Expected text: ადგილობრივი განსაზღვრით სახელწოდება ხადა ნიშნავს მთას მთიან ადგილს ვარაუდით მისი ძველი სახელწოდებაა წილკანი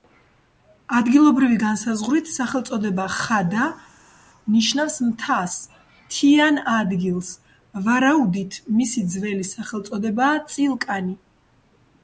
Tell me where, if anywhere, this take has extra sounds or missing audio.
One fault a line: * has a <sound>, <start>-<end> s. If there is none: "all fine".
all fine